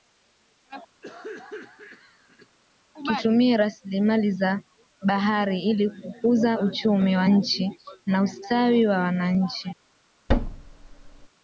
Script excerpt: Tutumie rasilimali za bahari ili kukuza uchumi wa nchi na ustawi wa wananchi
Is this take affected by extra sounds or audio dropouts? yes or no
yes